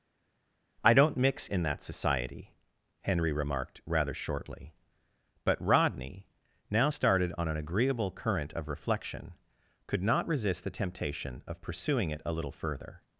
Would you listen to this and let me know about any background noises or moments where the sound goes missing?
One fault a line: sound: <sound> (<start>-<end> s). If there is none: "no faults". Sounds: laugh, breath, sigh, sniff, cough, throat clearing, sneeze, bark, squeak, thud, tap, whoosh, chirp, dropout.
no faults